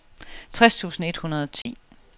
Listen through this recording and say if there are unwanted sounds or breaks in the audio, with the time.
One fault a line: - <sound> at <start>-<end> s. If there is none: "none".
- dropout at 1.6-1.7 s